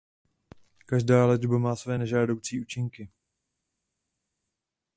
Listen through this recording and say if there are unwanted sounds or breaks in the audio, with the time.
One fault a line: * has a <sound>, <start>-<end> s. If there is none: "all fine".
all fine